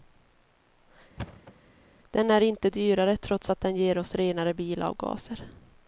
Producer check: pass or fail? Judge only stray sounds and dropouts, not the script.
fail